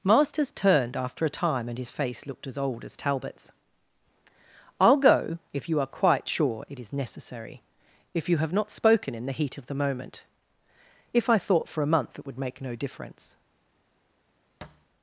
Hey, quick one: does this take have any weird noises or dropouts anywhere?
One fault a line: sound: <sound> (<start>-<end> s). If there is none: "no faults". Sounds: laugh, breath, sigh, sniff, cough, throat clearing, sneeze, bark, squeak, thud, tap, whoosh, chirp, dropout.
sound: thud (14.6-14.9 s)